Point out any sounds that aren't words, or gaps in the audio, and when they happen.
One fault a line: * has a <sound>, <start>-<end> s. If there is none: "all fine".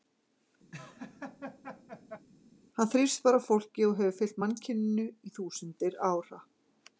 * has a laugh, 0.7-2.3 s